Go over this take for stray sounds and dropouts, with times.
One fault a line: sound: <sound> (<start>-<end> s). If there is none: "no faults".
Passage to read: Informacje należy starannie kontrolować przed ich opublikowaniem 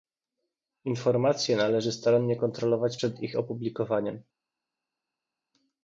no faults